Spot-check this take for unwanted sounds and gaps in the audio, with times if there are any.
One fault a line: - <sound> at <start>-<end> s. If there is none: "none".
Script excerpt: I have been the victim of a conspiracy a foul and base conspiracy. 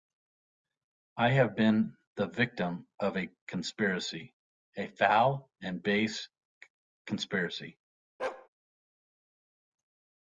- bark at 8.2-8.5 s